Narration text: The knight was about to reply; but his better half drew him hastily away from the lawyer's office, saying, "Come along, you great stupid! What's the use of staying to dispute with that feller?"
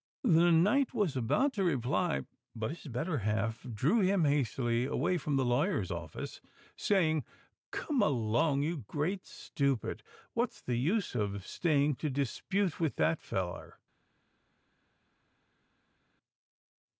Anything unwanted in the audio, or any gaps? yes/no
no